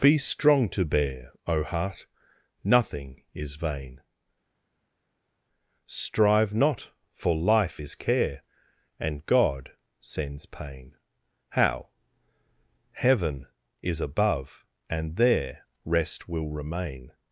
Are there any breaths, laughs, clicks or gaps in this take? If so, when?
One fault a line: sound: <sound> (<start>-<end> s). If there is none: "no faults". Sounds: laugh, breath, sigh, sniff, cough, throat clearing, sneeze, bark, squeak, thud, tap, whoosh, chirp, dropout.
no faults